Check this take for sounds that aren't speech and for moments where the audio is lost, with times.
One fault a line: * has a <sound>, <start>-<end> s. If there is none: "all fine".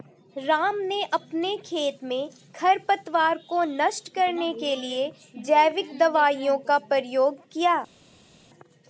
all fine